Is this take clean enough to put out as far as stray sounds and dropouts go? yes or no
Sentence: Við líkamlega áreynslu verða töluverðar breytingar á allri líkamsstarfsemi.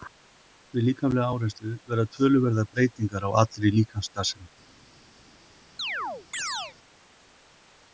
no